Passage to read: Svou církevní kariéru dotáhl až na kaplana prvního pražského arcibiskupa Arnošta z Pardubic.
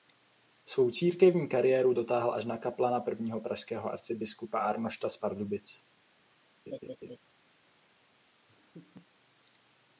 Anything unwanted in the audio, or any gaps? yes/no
yes